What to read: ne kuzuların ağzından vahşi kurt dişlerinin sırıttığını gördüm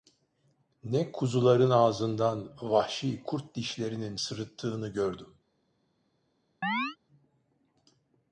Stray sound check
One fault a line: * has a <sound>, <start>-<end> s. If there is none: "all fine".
* has a chirp, 6.6-7.0 s